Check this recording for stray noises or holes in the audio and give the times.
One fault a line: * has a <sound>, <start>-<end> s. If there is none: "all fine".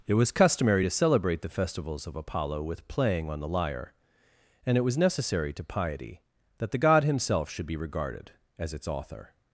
all fine